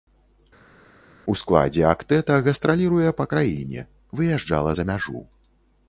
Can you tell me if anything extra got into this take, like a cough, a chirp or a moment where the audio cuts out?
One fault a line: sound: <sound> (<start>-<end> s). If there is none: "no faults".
no faults